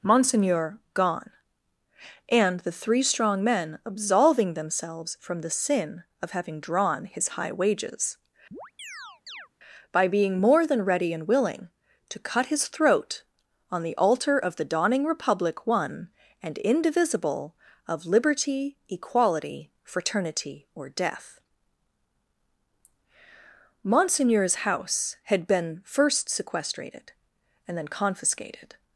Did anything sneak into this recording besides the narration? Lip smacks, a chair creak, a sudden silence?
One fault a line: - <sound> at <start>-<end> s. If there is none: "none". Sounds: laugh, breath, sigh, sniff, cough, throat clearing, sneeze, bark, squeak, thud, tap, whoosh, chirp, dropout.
- chirp at 8.5-9.5 s